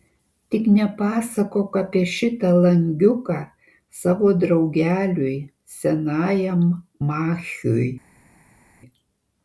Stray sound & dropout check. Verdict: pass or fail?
pass